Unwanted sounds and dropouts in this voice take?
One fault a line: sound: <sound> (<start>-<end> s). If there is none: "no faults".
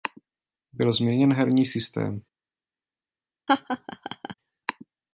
sound: laugh (3.5-4.3 s)